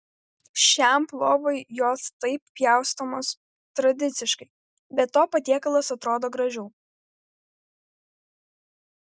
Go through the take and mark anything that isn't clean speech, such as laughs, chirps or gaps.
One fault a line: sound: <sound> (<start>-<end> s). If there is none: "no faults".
no faults